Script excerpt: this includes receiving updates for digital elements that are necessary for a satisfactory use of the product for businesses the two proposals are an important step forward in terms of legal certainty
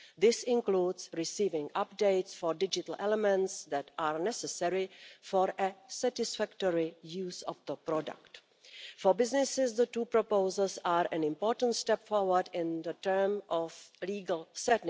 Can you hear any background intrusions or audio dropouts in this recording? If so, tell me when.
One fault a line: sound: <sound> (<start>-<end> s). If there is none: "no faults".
no faults